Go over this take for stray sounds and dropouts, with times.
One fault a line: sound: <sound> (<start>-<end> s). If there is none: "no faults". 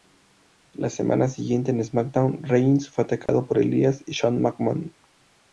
sound: dropout (3.3-3.3 s)